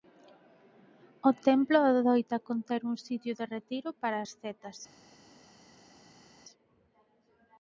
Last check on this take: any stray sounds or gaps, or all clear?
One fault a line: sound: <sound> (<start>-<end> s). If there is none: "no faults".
no faults